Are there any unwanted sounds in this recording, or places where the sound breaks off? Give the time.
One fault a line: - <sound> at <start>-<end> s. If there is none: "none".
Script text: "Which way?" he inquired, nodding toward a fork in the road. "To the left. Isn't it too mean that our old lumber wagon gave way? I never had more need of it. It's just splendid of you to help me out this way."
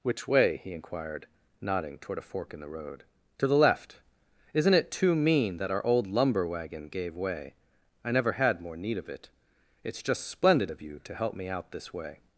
none